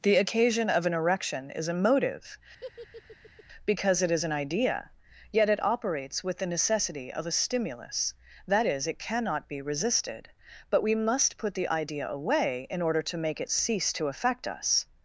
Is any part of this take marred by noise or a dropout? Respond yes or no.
yes